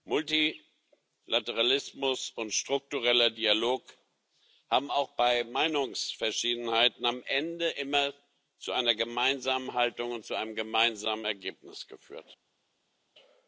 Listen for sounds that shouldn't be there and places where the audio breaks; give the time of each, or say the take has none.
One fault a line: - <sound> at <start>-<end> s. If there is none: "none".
none